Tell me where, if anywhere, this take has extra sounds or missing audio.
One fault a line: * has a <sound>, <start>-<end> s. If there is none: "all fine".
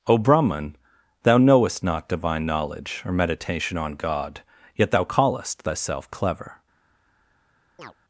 * has a chirp, 7.8-7.9 s